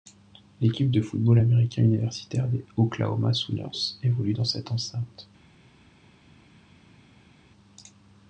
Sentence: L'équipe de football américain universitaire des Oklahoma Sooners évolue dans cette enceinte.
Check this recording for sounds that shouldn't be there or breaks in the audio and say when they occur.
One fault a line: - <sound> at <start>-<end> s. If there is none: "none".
none